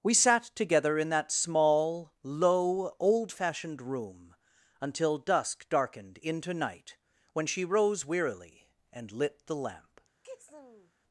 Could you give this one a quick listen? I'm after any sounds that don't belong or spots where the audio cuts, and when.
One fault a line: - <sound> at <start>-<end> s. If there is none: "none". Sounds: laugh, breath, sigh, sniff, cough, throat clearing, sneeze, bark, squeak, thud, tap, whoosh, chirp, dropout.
- sneeze at 10.2-10.9 s